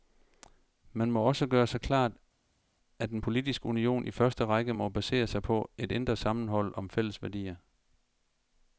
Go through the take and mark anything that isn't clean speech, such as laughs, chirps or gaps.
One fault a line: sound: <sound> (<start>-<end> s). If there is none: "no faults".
no faults